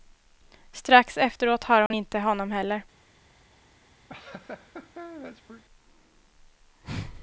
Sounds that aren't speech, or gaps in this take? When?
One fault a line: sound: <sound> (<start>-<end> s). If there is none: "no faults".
sound: dropout (1.9-1.9 s)
sound: laugh (4.1-5.6 s)